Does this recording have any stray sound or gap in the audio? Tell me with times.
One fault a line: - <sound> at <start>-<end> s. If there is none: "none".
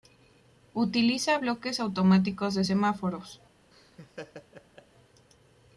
- laugh at 3.7-4.9 s